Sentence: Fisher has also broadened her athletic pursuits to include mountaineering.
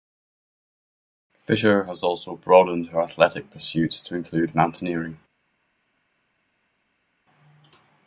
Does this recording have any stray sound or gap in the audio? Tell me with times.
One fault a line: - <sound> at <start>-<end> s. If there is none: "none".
none